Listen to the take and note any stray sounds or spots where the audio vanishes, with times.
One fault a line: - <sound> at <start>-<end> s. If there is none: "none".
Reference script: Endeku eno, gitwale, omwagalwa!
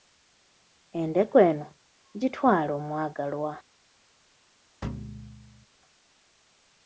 - thud at 4.8-5.7 s